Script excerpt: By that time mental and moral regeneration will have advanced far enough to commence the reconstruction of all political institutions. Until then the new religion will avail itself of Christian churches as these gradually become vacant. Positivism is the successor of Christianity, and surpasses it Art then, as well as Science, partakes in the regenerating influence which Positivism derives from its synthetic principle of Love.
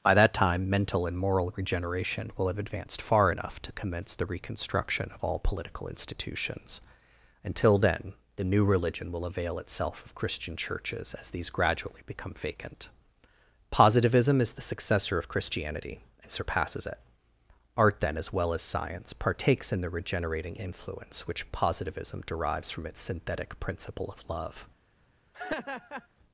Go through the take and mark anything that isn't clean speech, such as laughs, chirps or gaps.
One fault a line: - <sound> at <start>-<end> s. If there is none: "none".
- laugh at 25.3-26.1 s